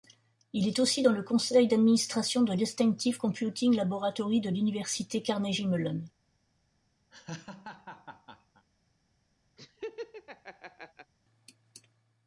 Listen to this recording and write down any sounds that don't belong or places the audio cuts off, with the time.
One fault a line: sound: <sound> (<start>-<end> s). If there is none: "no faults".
sound: laugh (7.1-8.6 s)
sound: laugh (9.6-11.1 s)